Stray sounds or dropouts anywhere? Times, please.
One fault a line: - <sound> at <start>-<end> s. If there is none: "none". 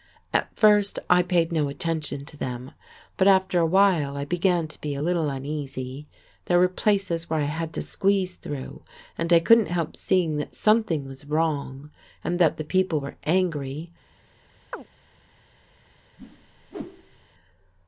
- chirp at 14.7-14.9 s
- whoosh at 16.2-17.3 s